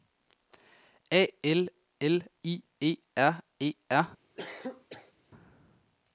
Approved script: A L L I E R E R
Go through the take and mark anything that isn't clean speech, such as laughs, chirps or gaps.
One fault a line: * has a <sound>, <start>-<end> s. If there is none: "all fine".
* has a cough, 4.4-5.1 s